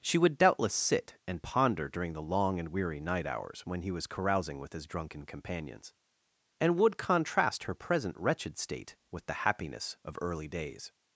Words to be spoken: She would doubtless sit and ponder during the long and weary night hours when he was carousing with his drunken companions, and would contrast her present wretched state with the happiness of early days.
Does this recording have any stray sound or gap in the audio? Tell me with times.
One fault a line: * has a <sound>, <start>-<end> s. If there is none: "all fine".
all fine